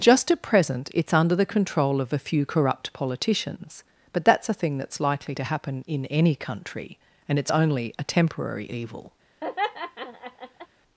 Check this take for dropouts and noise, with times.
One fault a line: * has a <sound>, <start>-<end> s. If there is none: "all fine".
* has a laugh, 9.4-10.7 s